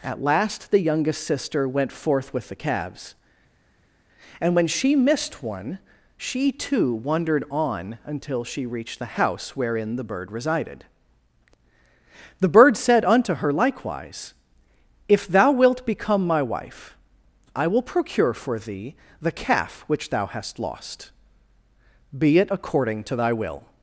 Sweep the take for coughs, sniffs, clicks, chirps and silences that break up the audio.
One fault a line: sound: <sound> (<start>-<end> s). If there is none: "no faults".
no faults